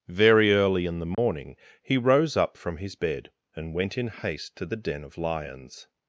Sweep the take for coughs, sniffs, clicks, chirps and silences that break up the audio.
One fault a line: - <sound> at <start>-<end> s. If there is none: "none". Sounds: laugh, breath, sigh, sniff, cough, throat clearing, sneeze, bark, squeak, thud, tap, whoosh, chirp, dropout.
- dropout at 1.1-1.2 s